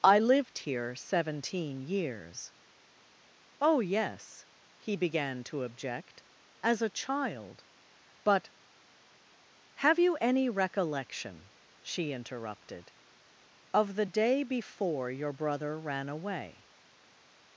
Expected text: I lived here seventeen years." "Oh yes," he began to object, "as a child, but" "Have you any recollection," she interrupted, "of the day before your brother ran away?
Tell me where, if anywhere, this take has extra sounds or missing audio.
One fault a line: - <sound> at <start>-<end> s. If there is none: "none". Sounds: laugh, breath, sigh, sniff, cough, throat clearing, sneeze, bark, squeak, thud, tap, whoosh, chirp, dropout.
none